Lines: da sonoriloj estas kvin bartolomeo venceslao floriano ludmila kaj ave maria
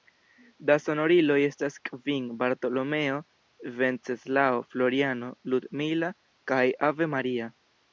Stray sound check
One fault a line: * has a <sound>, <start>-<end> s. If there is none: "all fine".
all fine